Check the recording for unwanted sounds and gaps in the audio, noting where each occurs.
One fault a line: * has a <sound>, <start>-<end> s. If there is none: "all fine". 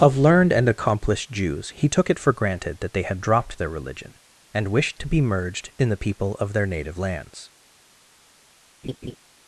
* has a laugh, 8.8-9.2 s